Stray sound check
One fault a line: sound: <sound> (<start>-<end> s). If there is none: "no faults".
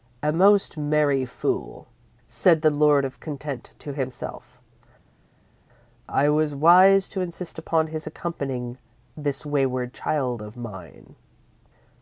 no faults